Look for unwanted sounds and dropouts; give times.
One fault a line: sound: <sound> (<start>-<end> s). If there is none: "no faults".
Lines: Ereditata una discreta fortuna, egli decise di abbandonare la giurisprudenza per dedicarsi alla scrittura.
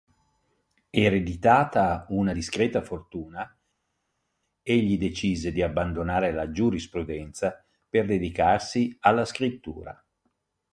no faults